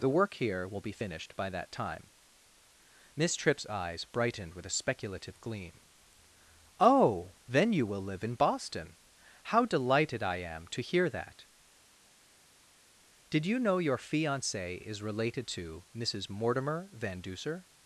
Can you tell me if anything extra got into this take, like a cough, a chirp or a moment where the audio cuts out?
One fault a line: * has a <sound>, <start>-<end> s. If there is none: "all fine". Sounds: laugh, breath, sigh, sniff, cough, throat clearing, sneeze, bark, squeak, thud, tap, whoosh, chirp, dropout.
all fine